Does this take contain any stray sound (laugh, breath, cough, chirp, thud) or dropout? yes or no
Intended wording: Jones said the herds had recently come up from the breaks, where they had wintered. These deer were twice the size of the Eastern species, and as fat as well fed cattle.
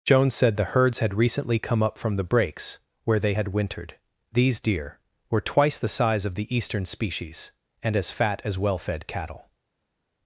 no